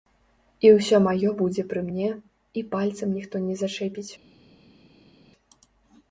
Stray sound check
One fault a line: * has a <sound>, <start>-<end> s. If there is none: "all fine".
all fine